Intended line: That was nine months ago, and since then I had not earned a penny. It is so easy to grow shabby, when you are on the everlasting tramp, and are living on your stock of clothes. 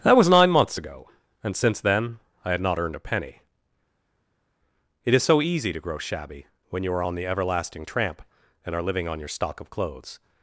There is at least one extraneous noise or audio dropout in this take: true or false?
false